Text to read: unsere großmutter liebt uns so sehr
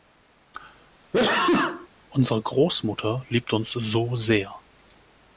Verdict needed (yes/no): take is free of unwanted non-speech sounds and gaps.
no